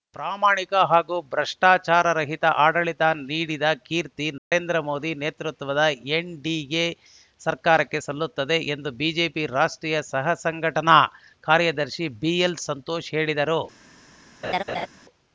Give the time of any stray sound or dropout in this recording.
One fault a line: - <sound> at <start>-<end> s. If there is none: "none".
- dropout at 4.4-4.5 s
- laugh at 14.4-14.9 s